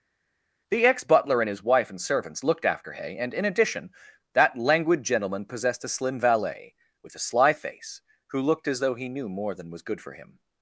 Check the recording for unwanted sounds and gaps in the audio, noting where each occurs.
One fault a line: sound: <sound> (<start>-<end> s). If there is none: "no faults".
no faults